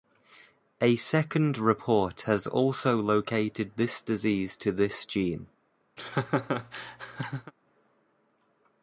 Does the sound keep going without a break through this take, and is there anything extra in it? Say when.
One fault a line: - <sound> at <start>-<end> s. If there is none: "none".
- laugh at 6.0-7.5 s